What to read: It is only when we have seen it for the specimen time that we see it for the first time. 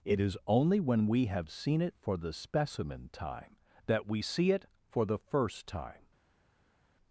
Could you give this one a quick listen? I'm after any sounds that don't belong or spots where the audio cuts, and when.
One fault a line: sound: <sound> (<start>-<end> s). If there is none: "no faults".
no faults